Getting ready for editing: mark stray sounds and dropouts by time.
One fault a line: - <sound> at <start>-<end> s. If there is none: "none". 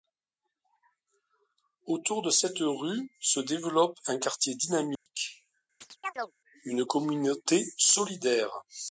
- dropout at 5.0-5.1 s
- chirp at 5.8-6.3 s